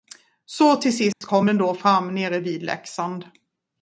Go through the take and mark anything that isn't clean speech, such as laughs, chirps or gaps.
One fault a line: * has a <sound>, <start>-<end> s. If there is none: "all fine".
* has a dropout, 1.1-1.2 s